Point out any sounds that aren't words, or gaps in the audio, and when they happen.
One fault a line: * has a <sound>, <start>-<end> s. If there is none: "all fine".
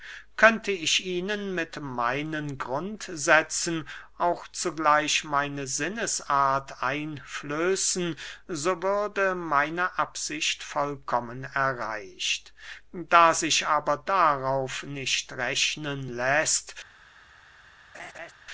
* has a laugh, 17.9-18.3 s